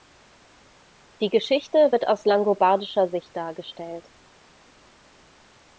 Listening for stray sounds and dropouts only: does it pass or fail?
pass